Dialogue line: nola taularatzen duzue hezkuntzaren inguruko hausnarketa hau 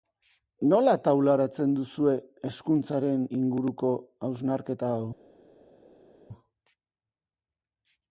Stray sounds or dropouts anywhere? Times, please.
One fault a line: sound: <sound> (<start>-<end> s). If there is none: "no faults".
no faults